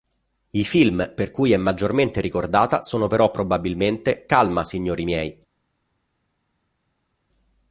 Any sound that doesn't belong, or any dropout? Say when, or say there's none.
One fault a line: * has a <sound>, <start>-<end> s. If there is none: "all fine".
all fine